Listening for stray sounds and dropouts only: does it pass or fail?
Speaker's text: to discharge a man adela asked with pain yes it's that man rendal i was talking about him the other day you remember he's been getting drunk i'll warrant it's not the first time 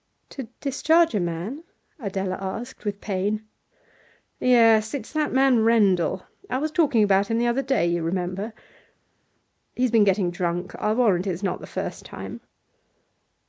pass